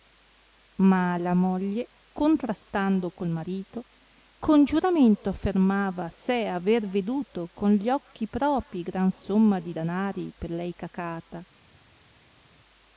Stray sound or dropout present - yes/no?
no